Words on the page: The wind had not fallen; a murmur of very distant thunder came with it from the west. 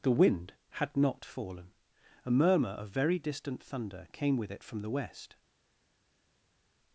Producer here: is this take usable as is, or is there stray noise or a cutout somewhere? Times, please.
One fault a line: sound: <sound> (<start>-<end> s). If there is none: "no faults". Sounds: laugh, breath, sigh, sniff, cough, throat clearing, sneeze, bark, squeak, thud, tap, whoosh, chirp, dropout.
no faults